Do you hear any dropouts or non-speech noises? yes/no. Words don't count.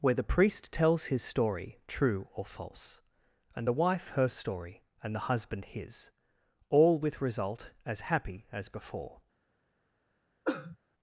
yes